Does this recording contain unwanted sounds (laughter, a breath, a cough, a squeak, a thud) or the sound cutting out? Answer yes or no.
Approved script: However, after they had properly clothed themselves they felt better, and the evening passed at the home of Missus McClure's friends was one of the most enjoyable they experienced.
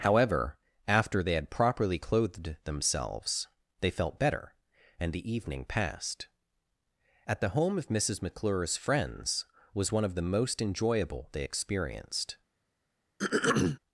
yes